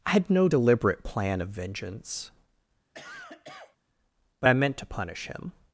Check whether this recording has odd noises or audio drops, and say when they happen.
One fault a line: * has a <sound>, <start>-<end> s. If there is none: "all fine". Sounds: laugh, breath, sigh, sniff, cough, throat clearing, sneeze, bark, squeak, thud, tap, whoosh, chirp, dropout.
* has a cough, 2.9-3.8 s